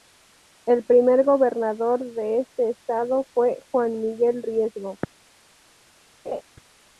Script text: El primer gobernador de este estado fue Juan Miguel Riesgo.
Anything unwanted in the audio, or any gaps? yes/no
yes